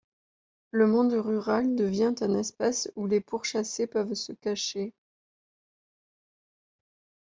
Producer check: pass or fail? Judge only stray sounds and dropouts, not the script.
pass